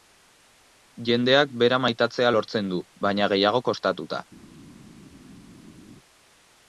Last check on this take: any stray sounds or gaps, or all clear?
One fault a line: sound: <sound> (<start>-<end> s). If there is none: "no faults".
no faults